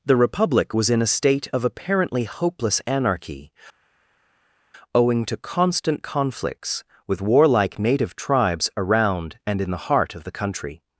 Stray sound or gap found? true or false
false